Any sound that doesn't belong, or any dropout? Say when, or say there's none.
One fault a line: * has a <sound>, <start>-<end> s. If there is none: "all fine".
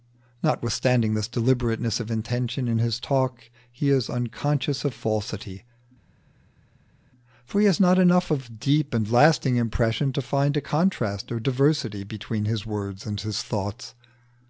all fine